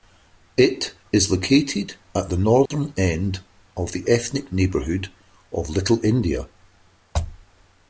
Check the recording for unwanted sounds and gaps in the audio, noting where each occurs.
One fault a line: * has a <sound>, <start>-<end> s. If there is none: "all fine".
* has a dropout, 2.7-2.7 s